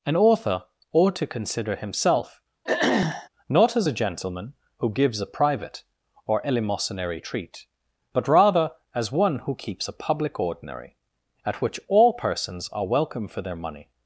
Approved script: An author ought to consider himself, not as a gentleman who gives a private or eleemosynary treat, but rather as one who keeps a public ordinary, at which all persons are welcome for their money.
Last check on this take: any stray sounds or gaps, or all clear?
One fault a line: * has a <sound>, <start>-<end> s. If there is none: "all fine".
* has a throat clearing, 2.6-3.3 s